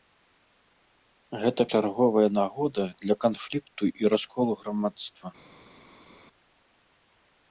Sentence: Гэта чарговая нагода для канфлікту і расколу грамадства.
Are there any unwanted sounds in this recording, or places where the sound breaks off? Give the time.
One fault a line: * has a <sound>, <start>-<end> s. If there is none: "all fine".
all fine